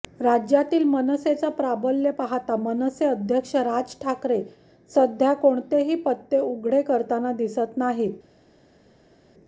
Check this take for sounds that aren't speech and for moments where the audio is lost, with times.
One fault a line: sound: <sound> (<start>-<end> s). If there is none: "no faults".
no faults